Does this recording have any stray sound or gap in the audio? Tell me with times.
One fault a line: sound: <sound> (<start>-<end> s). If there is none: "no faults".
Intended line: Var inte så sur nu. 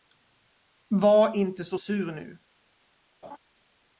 sound: laugh (3.2-3.4 s)